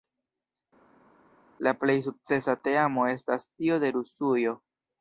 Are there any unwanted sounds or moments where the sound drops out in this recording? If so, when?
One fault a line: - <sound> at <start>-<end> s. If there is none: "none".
none